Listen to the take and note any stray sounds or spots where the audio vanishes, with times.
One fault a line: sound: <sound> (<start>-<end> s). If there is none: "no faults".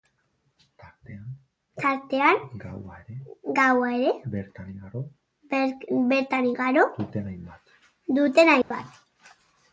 sound: dropout (8.6-8.7 s)